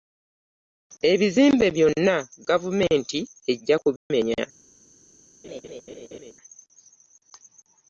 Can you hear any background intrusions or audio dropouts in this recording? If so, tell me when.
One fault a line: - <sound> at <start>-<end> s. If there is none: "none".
- dropout at 4.0-4.1 s
- laugh at 5.4-6.3 s